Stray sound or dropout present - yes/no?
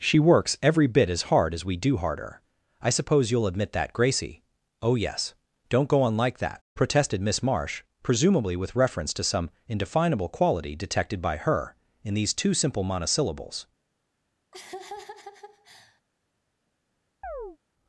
yes